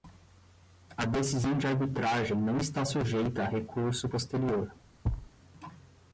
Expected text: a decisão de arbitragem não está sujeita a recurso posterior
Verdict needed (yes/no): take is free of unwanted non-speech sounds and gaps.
no